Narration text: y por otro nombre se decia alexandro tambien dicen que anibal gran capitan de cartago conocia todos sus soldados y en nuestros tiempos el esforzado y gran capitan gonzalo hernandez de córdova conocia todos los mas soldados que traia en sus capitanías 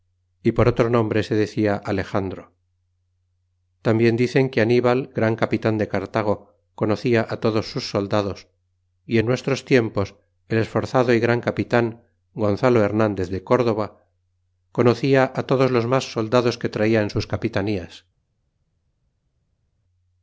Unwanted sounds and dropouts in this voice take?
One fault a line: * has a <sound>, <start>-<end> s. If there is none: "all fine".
all fine